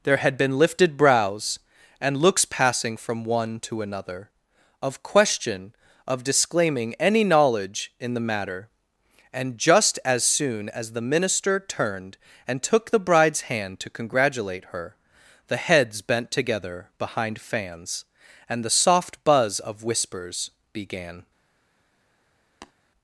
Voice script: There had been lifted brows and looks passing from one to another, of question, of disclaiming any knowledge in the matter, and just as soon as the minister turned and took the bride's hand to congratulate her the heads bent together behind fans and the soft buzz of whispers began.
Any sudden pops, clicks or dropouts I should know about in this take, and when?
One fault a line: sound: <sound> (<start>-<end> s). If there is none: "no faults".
sound: tap (22.6-22.7 s)